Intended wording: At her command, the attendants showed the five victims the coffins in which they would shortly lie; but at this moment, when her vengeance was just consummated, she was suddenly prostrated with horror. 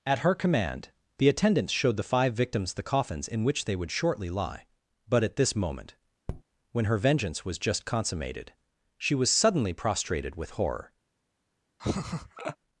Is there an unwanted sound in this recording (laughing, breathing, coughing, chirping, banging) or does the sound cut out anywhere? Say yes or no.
yes